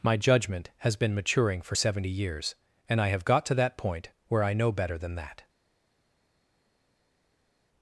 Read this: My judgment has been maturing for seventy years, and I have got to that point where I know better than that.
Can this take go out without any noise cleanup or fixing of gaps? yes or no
yes